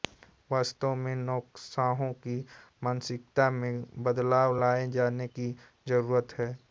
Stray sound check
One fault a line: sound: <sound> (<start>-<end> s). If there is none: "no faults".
no faults